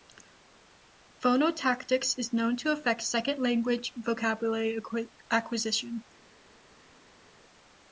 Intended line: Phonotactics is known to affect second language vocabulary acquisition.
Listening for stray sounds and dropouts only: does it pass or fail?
pass